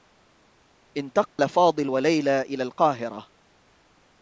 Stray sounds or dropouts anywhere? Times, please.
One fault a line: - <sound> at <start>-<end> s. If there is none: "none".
- dropout at 1.3-1.4 s